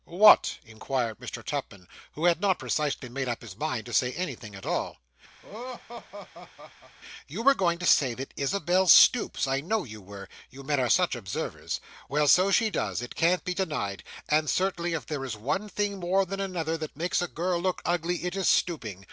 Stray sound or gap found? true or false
true